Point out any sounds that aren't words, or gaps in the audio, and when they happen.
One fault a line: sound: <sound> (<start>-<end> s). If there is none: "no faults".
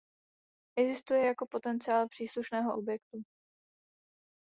no faults